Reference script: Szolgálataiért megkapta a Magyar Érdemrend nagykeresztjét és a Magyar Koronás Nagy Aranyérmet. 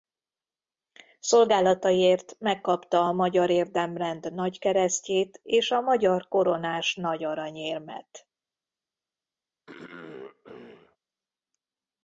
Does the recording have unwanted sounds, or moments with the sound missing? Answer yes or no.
yes